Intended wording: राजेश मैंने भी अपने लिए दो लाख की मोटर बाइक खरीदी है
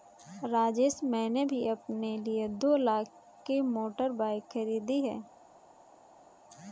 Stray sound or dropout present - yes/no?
no